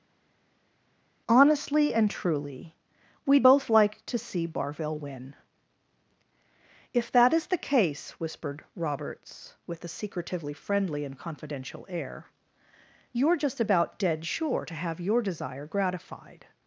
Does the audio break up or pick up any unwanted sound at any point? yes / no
no